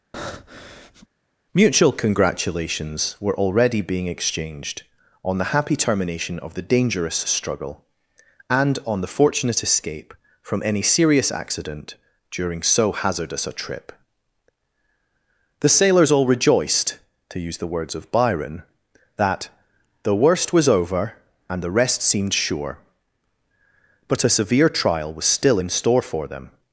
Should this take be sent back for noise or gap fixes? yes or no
yes